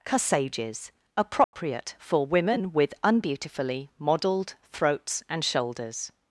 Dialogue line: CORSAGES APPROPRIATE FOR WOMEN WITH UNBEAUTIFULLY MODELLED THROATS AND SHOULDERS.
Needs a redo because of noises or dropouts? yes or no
yes